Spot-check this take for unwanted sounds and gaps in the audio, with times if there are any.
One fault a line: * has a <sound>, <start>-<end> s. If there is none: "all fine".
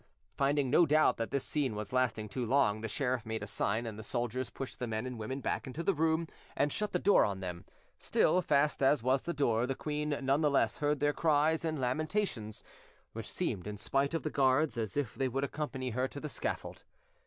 all fine